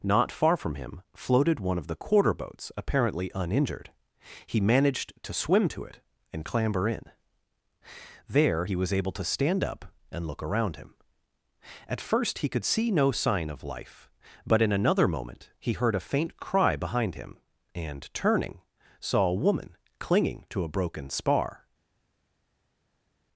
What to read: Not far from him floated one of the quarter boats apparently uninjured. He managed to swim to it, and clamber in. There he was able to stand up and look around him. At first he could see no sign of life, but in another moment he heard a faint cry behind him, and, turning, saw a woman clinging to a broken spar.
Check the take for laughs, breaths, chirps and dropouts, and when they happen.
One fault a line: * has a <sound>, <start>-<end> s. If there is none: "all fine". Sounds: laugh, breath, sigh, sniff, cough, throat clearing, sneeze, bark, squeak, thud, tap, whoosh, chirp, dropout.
all fine